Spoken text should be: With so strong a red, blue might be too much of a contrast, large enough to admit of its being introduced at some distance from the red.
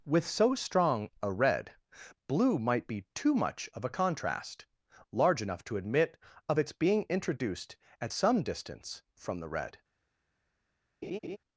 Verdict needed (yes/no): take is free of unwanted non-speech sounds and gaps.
no